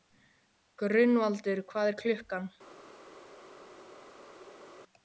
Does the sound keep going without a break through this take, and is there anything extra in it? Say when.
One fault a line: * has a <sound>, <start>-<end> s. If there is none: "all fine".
all fine